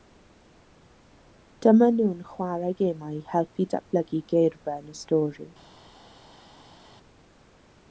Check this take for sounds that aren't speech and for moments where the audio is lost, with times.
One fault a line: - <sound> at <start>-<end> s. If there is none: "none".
none